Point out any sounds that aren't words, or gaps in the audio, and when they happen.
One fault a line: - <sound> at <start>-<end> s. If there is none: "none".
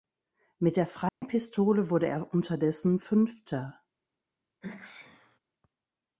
- dropout at 1.1-1.2 s
- sneeze at 4.6-5.4 s